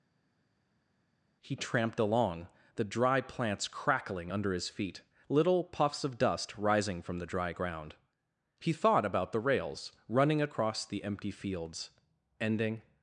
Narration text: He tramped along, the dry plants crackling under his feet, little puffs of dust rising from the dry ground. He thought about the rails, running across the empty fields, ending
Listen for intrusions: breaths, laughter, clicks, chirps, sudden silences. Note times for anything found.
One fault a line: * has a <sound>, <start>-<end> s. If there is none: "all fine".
all fine